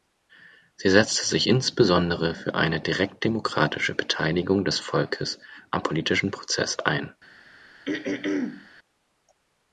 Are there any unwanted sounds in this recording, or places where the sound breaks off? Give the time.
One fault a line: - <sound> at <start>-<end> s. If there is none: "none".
- throat clearing at 7.8-8.7 s